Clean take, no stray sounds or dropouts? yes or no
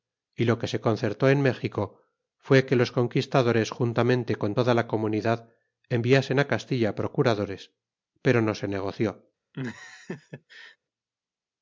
no